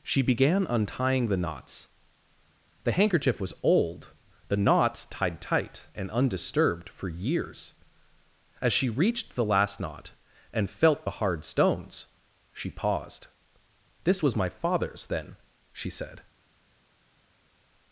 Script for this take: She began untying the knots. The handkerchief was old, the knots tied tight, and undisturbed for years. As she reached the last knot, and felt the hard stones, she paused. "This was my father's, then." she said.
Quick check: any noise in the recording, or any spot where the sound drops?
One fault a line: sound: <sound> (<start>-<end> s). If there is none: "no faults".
no faults